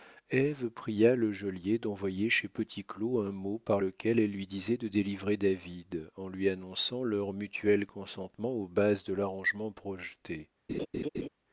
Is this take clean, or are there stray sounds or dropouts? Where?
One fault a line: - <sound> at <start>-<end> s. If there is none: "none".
- laugh at 10.7-11.3 s